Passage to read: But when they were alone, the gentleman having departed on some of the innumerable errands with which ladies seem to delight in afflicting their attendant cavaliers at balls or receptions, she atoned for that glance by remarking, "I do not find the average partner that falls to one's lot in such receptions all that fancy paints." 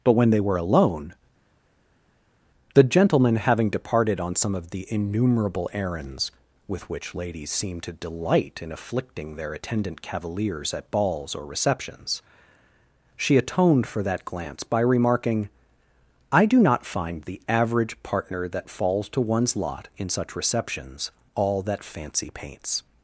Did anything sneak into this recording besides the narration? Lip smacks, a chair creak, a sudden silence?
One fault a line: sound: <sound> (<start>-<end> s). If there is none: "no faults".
no faults